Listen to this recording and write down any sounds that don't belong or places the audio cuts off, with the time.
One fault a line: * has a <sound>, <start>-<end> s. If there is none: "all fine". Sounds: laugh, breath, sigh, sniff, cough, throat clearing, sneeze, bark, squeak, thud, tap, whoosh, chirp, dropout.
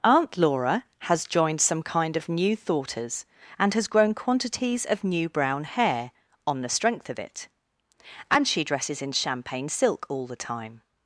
all fine